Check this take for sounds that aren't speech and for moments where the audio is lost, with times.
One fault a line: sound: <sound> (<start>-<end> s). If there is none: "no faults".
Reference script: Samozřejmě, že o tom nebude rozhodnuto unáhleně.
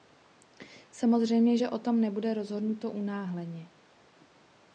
no faults